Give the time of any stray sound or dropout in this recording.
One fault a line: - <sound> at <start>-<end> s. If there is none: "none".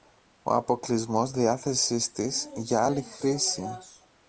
none